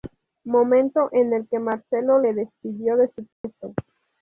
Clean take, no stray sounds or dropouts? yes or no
no